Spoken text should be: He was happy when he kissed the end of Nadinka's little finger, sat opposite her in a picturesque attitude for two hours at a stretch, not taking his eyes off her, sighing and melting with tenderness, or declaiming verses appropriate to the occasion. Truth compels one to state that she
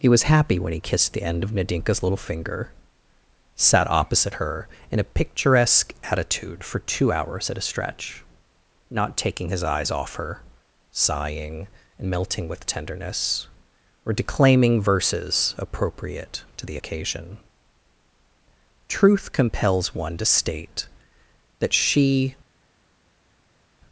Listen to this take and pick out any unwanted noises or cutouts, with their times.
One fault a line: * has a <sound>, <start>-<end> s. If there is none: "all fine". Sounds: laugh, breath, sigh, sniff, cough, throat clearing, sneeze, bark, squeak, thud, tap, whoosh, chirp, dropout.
all fine